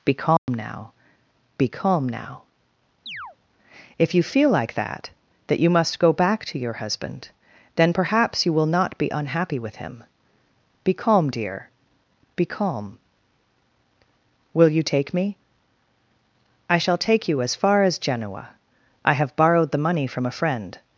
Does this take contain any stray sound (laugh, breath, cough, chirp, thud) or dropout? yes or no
yes